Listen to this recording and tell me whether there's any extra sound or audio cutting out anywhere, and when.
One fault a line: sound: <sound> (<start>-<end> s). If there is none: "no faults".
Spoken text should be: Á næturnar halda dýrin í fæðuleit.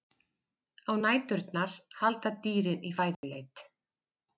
sound: dropout (3.1-3.2 s)